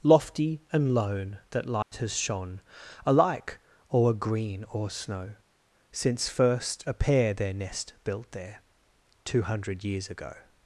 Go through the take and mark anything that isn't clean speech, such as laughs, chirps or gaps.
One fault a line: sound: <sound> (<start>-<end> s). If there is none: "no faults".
sound: dropout (1.8-1.9 s)